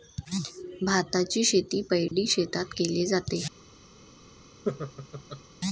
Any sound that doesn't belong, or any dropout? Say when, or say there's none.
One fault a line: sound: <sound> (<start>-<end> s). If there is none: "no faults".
sound: dropout (2.1-2.1 s)
sound: laugh (4.6-5.4 s)